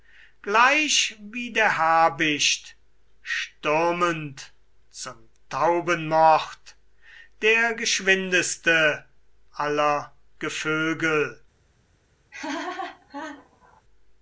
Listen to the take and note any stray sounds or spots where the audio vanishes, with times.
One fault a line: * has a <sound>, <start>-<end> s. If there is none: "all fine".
* has a laugh, 12.3-13.8 s